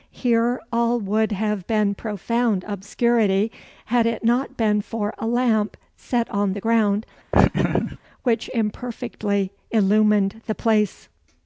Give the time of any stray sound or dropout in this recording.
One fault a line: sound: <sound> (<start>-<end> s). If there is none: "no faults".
sound: laugh (7.3-8.0 s)